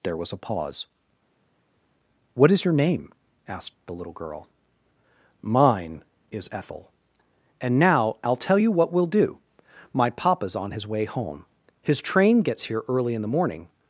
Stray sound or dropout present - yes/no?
no